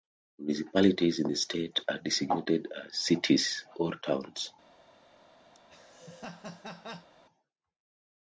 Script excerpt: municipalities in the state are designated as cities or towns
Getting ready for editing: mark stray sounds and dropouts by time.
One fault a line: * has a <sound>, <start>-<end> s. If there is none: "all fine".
* has a laugh, 5.5-7.1 s